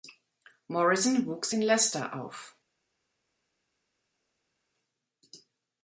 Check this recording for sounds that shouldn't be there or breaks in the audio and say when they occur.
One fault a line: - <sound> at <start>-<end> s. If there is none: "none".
none